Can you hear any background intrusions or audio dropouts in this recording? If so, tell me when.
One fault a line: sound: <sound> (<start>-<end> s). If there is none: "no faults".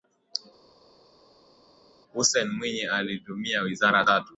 no faults